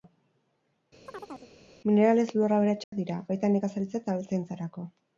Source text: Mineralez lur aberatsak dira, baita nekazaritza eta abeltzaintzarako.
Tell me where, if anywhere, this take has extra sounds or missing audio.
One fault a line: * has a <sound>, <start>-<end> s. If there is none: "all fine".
* has a chirp, 1.1-1.5 s
* has a dropout, 2.8-2.9 s